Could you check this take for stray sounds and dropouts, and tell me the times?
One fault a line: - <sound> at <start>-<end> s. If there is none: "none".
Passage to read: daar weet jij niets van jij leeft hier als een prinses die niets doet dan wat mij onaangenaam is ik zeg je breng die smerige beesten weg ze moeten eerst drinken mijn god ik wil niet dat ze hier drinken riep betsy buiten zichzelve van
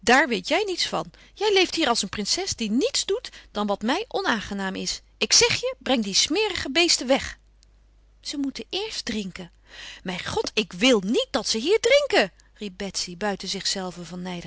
none